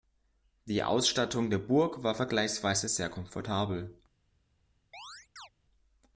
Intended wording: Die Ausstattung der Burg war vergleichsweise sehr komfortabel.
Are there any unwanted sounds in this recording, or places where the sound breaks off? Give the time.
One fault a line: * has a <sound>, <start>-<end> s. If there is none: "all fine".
* has a chirp, 4.9-5.5 s